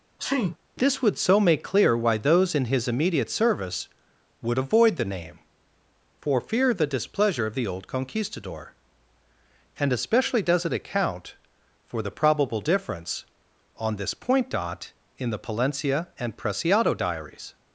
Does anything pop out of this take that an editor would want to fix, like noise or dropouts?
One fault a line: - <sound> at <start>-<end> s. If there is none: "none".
- sneeze at 0.2-0.6 s